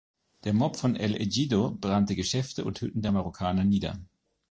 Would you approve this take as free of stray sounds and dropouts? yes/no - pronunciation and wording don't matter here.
yes